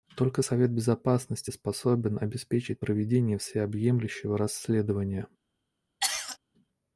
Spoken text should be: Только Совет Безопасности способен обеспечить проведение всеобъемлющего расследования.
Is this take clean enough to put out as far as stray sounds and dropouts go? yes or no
no